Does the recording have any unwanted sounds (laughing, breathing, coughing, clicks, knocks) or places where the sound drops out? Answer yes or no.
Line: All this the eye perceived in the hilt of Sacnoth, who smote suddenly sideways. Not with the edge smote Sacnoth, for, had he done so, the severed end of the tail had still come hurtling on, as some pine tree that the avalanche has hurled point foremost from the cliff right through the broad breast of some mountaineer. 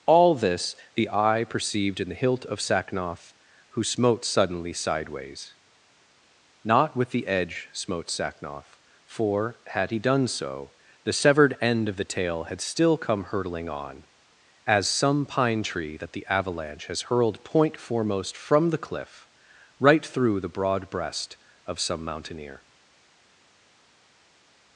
no